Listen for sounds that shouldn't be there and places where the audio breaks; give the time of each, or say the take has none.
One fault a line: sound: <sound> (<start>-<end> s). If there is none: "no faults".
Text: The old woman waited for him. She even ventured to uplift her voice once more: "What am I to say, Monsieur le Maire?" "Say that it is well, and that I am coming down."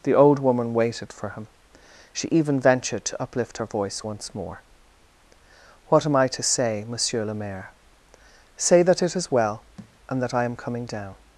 sound: thud (9.8-10.0 s)